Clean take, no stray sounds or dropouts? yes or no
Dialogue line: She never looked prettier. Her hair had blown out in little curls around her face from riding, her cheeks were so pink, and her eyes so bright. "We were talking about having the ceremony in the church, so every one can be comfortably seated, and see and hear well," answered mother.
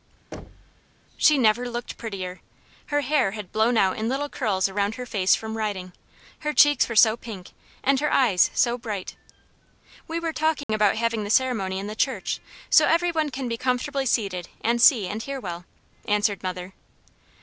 no